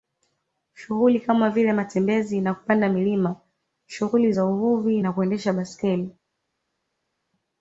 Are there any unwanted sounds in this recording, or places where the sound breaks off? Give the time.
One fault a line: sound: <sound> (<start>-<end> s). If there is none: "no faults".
no faults